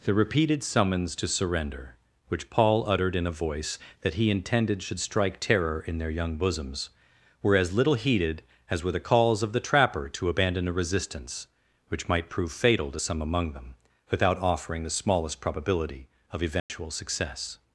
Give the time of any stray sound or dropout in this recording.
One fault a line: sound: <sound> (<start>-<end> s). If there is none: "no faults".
sound: dropout (16.6-16.7 s)